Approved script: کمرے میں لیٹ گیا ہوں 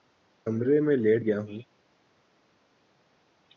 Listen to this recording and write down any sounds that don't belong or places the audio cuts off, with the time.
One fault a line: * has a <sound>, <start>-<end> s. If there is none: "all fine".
all fine